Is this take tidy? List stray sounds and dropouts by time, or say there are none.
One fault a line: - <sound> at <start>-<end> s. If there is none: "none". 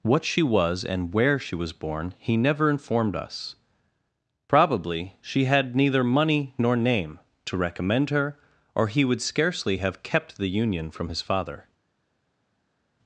none